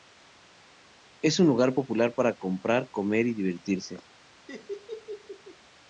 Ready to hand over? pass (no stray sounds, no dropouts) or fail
fail